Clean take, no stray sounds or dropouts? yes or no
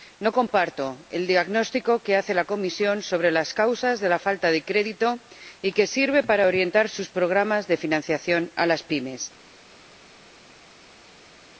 yes